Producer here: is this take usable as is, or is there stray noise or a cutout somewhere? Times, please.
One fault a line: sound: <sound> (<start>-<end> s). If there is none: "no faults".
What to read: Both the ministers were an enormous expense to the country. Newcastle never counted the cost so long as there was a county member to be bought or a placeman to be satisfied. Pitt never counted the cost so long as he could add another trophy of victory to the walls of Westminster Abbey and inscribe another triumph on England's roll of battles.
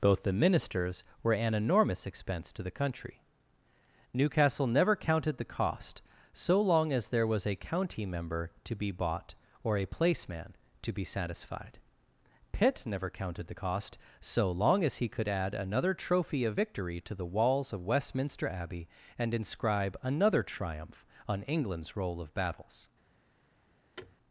sound: thud (24.0-24.2 s)